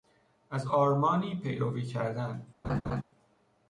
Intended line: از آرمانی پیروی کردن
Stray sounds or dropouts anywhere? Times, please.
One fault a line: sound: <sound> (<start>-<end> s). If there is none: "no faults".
sound: laugh (2.6-3.0 s)